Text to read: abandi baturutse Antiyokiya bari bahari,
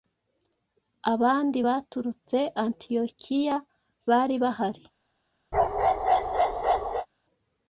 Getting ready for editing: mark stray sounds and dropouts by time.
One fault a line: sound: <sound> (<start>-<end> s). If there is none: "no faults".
sound: bark (5.5-7.1 s)